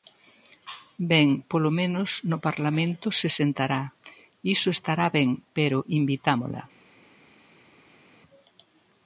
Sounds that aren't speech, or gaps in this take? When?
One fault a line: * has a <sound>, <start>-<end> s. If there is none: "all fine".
all fine